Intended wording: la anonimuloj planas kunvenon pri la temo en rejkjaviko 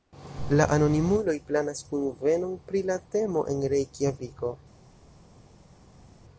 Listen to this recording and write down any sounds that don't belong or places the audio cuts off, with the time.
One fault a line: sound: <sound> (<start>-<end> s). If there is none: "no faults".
no faults